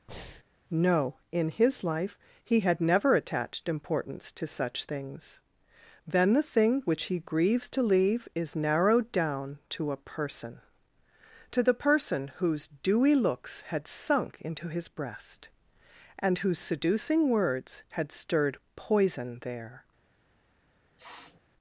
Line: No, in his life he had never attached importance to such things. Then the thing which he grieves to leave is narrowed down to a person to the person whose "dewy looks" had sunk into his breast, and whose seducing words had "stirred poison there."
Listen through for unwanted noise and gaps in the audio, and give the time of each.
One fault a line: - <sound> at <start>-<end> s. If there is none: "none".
- breath at 0.1-0.4 s
- sniff at 21.0-21.4 s